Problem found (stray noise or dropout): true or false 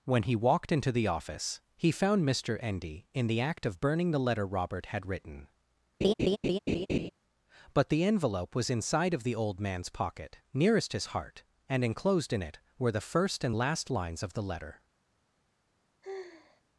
true